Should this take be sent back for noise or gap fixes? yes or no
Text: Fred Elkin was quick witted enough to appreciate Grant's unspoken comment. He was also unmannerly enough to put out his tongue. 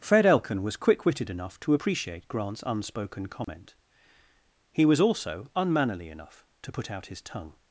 yes